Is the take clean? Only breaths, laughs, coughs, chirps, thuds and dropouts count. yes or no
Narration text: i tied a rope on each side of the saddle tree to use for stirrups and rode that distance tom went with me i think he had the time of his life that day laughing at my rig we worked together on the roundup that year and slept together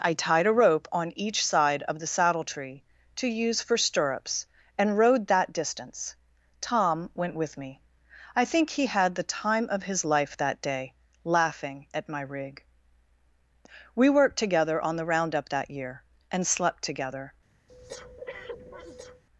no